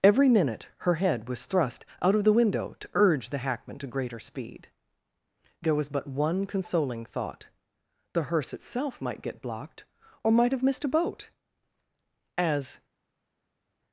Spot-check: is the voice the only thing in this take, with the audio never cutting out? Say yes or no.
yes